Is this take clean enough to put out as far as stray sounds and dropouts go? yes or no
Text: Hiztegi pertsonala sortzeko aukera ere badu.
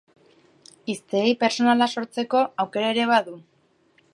yes